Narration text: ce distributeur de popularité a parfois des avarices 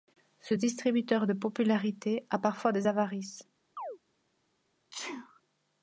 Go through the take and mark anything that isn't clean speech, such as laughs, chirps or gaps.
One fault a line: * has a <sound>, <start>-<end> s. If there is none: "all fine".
* has a chirp, 3.8-4.0 s
* has a sneeze, 4.9-5.4 s